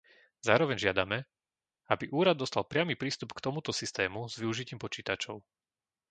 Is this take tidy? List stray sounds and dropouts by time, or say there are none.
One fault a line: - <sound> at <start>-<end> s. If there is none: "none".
none